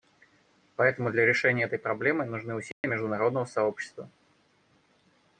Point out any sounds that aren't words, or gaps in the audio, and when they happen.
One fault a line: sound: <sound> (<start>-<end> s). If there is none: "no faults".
sound: dropout (2.7-2.8 s)